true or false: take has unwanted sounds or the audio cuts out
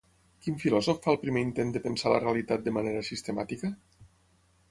false